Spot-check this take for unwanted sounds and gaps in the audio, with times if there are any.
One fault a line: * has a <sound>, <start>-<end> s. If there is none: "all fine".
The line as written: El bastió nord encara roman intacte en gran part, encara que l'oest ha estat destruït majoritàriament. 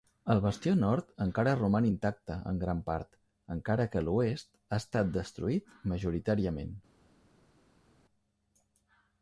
all fine